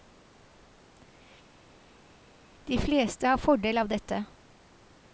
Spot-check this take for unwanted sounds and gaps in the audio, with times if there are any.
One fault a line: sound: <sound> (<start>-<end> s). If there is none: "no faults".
no faults